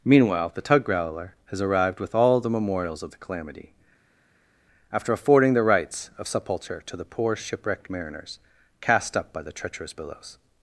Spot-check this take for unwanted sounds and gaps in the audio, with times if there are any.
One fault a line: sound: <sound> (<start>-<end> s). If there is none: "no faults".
no faults